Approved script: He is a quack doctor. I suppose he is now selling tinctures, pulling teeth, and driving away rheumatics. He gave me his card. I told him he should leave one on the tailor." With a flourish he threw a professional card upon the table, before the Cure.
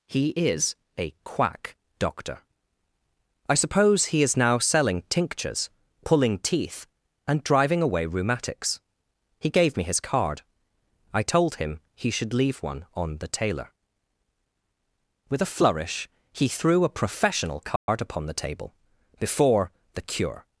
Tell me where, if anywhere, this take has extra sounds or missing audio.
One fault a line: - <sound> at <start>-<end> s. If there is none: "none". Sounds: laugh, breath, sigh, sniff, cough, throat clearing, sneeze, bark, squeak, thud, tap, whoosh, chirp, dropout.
- dropout at 17.8-17.9 s